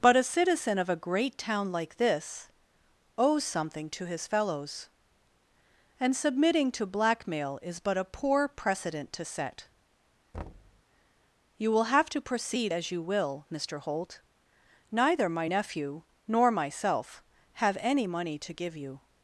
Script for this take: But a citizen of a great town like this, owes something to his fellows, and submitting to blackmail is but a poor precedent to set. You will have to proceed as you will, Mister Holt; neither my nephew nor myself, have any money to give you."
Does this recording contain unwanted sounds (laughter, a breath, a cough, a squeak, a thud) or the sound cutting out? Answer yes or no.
yes